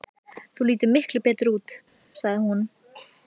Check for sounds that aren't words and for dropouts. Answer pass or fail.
pass